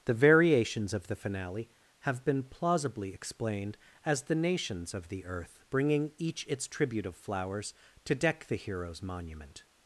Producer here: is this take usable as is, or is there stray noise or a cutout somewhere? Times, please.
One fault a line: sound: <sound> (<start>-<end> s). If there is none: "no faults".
no faults